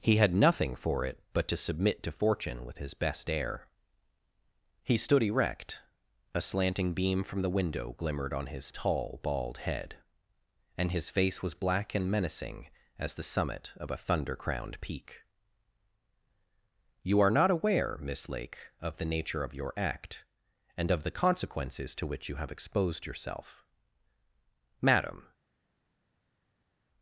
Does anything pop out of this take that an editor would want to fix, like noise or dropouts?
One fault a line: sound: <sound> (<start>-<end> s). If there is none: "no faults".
no faults